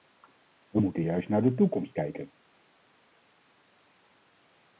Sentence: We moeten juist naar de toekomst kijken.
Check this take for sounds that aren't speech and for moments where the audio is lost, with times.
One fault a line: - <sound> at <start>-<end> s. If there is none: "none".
none